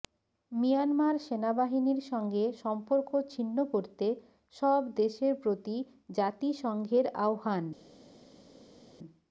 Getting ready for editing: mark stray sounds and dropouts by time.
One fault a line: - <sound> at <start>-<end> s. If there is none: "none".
none